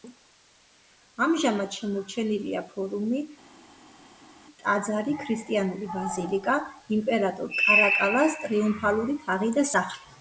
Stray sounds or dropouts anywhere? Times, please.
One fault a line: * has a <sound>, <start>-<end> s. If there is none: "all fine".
all fine